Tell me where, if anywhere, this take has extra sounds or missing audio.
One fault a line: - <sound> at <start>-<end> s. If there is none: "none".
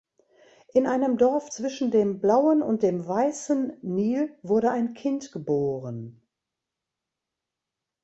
none